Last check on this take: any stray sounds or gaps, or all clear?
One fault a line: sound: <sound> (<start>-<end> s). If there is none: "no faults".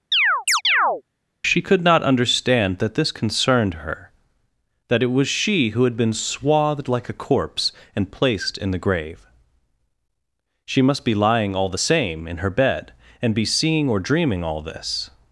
sound: chirp (0.1-1.0 s)